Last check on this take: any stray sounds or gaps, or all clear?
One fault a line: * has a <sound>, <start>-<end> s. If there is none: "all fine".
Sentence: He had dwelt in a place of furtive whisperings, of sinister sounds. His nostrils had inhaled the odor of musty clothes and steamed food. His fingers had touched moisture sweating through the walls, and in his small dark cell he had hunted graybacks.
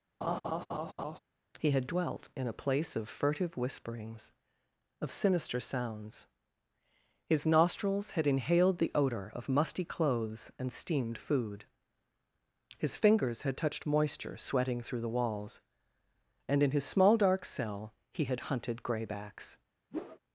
* has a laugh, 0.2-1.2 s
* has a whoosh, 19.9-20.2 s